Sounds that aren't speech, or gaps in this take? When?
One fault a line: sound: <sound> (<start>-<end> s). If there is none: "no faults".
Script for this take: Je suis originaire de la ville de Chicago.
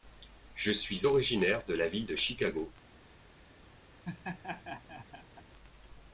sound: laugh (4.0-5.4 s)